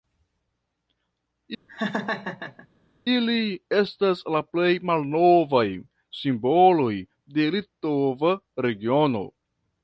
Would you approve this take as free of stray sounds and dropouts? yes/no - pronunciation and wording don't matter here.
no